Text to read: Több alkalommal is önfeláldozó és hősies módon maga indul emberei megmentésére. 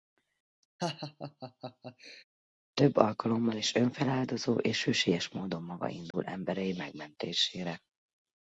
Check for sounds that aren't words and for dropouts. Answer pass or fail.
fail